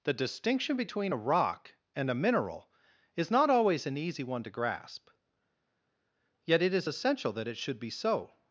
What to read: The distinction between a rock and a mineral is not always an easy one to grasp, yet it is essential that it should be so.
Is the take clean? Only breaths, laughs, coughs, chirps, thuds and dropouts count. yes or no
yes